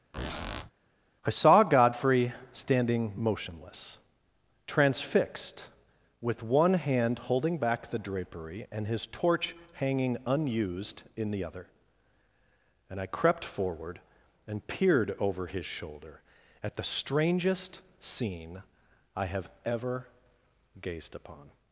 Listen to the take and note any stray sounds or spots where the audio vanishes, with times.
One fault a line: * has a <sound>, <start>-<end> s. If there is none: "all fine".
* has a squeak, 0.1-0.7 s